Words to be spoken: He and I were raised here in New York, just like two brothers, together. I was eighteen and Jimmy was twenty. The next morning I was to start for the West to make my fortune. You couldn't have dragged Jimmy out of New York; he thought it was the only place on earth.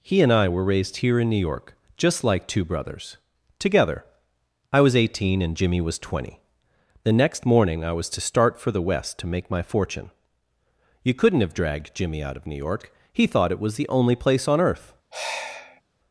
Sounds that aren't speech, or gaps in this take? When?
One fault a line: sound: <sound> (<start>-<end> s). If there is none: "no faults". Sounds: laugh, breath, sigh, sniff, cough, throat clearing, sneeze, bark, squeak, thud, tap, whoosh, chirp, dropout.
sound: sigh (15.1-15.8 s)